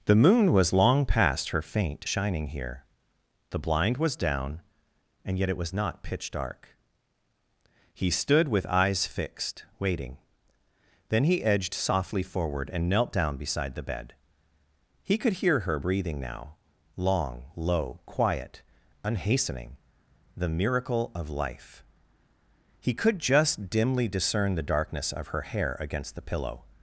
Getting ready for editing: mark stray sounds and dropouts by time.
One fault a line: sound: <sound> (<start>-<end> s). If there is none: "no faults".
no faults